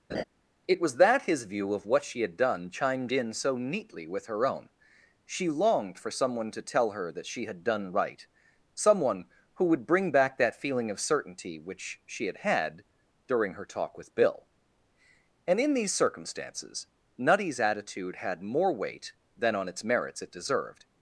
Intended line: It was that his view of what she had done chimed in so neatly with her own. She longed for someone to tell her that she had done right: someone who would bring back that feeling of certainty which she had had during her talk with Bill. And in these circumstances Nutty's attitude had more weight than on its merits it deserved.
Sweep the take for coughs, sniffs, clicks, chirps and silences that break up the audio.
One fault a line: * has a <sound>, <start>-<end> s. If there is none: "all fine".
* has a laugh, 0.1-0.2 s